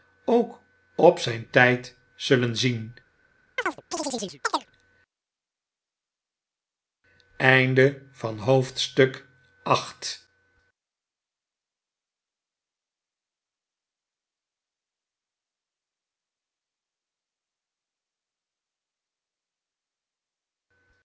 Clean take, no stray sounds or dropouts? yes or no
no